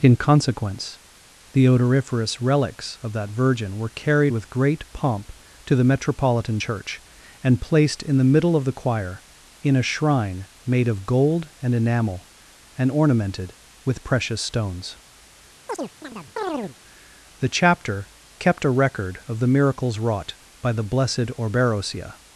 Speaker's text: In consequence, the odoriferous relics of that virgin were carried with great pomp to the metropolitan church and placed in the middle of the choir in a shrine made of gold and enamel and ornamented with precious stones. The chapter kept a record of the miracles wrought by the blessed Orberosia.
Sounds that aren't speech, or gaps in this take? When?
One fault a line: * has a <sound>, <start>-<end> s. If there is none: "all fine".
* has a chirp, 15.7-16.8 s